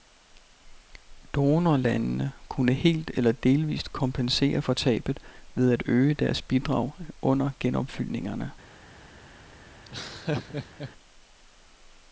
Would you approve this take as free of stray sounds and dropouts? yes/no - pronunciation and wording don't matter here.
no